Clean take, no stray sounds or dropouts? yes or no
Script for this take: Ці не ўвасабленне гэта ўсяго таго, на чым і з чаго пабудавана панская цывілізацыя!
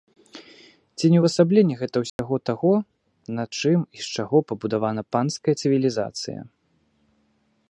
no